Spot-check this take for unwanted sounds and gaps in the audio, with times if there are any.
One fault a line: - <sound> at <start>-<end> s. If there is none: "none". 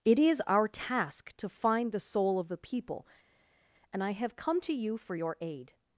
none